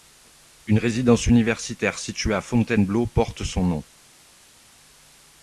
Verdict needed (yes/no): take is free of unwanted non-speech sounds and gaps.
yes